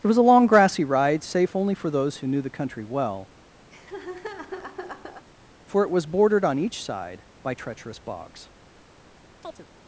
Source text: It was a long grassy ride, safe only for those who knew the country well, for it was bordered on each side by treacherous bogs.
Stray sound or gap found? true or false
true